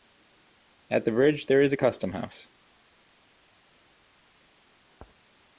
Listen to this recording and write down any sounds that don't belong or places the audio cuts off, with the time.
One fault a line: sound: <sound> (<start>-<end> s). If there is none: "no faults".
no faults